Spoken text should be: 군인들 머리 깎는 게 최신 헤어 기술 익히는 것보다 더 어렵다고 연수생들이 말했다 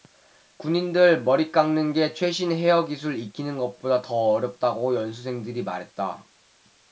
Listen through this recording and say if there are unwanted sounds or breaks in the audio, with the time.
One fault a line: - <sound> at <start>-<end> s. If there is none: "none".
none